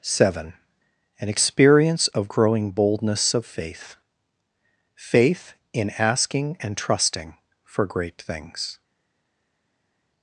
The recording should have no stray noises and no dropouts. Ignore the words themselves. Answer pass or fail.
pass